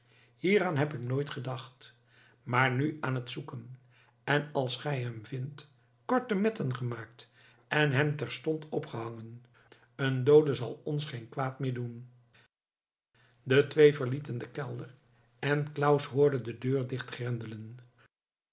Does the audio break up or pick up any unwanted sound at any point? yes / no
no